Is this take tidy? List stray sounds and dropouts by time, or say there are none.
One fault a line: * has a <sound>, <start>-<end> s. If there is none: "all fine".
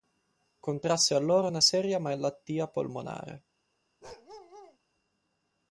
* has a bark, 4.0-4.8 s